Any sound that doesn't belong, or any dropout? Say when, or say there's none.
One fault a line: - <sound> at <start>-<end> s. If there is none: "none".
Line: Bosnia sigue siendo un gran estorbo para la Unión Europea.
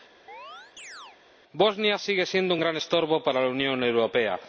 - chirp at 0.3-1.2 s